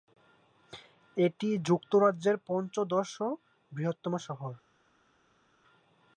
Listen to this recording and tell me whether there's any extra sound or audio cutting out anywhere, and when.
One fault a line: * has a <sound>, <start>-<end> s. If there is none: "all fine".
all fine